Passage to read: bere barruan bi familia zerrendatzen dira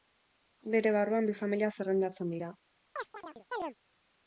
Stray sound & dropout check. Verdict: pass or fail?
fail